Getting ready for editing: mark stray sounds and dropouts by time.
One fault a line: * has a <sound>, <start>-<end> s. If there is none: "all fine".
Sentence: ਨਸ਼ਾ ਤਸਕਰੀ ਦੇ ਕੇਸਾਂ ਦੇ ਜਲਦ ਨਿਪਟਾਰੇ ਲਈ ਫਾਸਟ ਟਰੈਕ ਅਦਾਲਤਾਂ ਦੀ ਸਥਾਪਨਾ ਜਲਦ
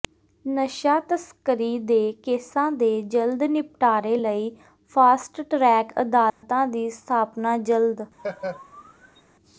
* has a dropout, 6.3-6.4 s
* has a laugh, 8.2-9.2 s